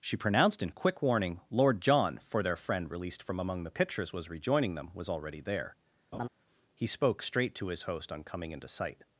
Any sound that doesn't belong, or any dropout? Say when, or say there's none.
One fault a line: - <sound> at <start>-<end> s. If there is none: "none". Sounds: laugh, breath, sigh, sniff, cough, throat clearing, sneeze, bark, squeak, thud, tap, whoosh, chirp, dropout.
- laugh at 6.1-6.3 s